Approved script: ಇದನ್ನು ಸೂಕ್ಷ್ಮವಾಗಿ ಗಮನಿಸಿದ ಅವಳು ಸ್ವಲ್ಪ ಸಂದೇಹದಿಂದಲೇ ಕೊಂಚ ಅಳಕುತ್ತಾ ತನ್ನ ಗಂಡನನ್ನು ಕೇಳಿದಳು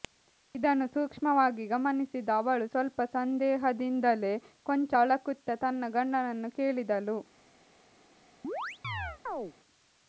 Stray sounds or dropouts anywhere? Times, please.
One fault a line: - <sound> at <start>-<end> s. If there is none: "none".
- chirp at 8.4-9.5 s